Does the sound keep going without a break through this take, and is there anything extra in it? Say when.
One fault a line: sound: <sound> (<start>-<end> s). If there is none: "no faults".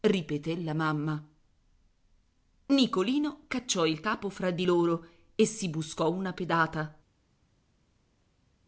no faults